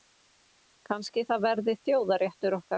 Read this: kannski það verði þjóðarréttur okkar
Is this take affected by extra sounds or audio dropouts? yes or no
no